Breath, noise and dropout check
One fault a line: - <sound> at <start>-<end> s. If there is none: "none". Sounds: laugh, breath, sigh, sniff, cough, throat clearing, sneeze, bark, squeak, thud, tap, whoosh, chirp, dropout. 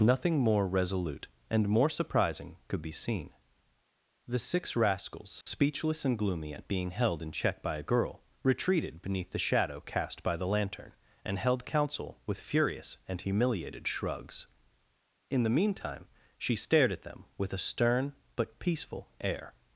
- dropout at 5.4-5.5 s